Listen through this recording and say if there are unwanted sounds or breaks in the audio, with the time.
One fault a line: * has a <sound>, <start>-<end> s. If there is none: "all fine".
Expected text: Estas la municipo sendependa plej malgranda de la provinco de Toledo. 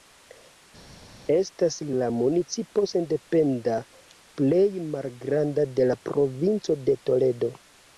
all fine